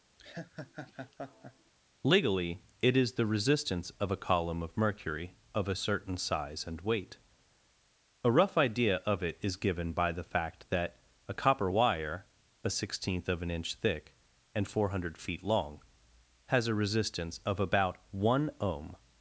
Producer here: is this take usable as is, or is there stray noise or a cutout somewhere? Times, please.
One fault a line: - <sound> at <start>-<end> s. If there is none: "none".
- laugh at 0.2-1.7 s